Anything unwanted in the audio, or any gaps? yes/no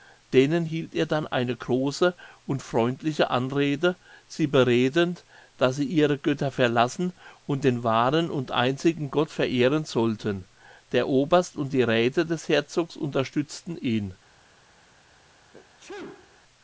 yes